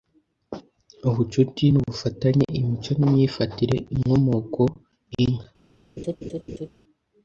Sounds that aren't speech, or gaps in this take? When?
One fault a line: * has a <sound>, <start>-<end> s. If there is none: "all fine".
* has a laugh, 6.0-6.7 s